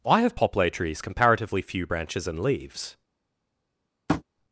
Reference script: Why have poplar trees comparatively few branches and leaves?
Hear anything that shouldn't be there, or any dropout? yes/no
yes